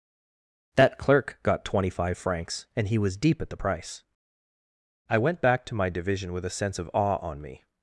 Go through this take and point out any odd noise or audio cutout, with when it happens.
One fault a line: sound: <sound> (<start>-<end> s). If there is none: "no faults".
no faults